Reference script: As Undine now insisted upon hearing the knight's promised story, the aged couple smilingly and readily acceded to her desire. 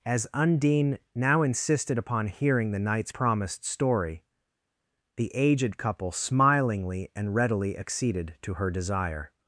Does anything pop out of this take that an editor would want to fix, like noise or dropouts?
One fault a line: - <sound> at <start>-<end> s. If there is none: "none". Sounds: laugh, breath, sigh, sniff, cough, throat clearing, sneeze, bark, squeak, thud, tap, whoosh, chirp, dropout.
none